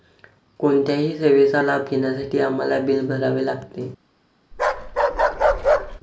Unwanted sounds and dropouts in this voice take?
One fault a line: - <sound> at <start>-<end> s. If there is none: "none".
- bark at 4.5-6.0 s